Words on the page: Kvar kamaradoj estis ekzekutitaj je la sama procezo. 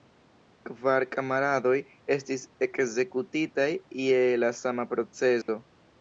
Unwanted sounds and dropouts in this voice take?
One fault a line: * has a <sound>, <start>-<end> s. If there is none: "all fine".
* has a dropout, 5.4-5.5 s